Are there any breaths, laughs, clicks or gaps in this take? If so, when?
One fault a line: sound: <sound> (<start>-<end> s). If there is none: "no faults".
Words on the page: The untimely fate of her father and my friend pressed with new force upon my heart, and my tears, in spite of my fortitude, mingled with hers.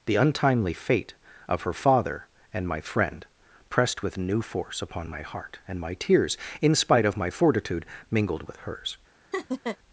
sound: laugh (9.3-9.8 s)